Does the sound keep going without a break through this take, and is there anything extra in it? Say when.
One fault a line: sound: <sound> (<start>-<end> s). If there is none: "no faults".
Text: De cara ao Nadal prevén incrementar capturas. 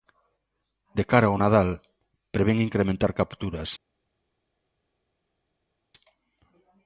no faults